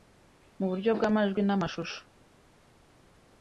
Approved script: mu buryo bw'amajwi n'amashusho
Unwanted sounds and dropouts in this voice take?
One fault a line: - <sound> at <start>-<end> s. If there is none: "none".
none